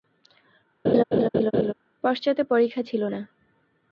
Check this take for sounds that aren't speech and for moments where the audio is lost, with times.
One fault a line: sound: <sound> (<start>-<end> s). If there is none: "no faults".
sound: laugh (0.8-1.7 s)